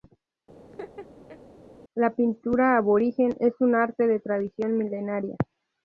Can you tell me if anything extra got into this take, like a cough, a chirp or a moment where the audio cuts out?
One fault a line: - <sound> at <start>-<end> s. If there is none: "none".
- laugh at 0.7-1.4 s